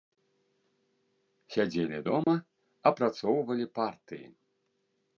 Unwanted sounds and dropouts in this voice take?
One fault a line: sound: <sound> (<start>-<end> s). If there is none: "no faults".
sound: dropout (2.2-2.3 s)